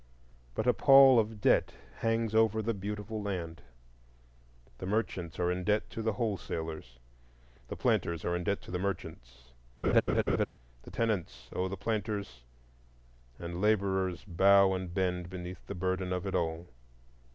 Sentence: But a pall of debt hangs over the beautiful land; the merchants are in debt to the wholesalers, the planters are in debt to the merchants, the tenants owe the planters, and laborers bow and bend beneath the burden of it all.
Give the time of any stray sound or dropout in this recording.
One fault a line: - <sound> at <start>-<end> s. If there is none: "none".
- laugh at 9.8-10.5 s